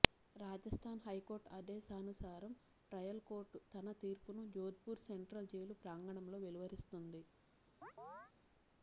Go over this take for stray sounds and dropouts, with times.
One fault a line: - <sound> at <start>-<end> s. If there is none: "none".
- chirp at 7.8-8.3 s